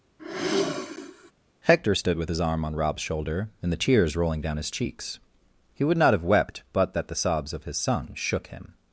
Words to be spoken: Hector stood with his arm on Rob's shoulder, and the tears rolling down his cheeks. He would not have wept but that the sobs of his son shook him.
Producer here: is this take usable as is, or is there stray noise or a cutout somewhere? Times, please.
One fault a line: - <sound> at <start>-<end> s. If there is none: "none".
- sigh at 0.2-1.3 s